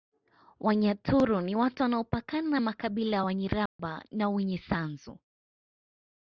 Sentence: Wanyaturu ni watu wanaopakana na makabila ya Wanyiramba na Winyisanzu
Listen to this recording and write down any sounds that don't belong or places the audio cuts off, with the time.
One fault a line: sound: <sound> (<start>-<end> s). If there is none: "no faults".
sound: dropout (3.7-3.8 s)